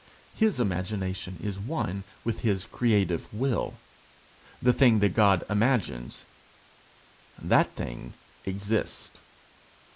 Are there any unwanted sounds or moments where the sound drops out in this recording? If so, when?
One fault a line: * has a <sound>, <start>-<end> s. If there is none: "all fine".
all fine